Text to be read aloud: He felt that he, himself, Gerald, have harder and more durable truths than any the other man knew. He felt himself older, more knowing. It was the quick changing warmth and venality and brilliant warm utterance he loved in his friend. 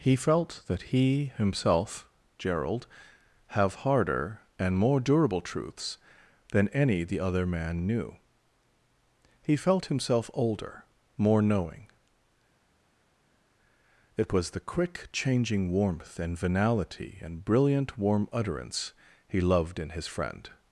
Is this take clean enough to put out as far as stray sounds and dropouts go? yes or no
yes